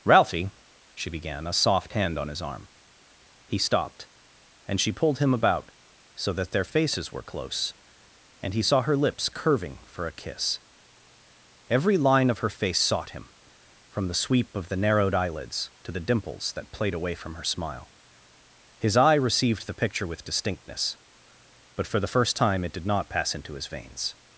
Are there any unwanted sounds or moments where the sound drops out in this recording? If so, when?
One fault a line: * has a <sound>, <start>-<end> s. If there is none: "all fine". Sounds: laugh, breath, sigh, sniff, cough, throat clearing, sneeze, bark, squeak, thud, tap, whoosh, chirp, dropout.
all fine